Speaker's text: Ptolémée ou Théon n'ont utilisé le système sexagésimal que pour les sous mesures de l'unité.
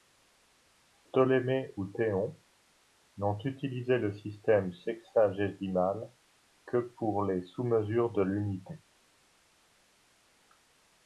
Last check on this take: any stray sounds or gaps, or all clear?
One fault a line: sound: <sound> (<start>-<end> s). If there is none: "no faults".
no faults